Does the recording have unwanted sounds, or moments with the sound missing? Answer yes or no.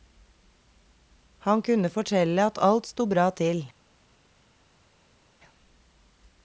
no